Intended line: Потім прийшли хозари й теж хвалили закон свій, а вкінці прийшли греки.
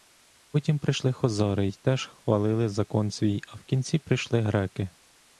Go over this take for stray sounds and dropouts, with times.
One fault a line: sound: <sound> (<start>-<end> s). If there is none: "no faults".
no faults